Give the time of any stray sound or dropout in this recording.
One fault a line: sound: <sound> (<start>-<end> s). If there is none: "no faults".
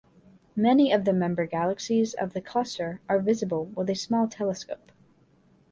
no faults